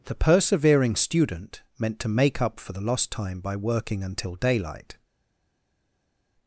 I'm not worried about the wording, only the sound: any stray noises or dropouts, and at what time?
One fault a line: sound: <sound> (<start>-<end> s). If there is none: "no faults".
no faults